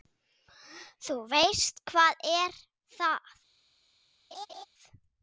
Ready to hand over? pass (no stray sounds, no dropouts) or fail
fail